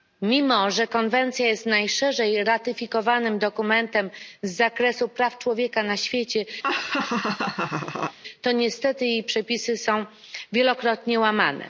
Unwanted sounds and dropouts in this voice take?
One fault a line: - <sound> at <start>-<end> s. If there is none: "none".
- laugh at 6.6-8.2 s